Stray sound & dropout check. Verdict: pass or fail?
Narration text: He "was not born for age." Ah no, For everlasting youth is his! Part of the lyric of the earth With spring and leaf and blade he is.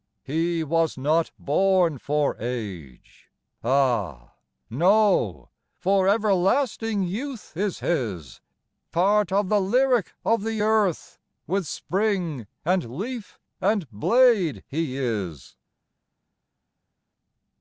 pass